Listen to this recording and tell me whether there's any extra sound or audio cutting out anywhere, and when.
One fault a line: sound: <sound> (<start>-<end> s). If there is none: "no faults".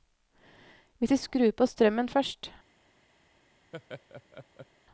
sound: laugh (3.7-4.7 s)